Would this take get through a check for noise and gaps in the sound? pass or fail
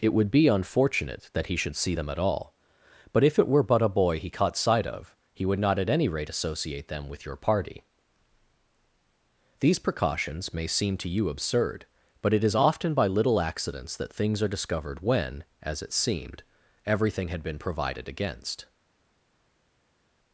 pass